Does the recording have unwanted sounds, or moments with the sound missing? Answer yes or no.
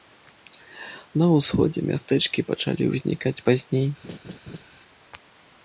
yes